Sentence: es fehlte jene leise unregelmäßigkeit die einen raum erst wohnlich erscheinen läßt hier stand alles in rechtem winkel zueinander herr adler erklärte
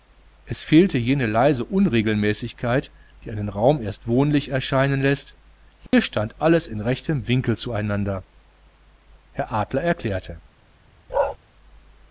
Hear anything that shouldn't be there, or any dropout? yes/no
yes